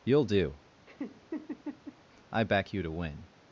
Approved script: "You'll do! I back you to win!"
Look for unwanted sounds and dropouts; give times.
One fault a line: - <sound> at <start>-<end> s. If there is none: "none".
- laugh at 0.9-2.0 s